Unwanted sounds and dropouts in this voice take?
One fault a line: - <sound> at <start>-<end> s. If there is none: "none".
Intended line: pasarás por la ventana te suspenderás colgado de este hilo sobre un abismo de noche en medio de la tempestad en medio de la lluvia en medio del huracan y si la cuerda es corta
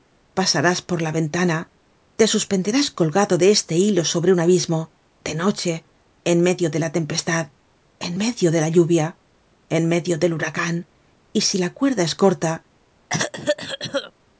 - cough at 13.1-14.1 s